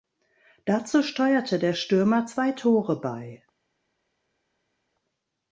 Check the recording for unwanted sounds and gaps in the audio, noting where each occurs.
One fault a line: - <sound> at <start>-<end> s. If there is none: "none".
none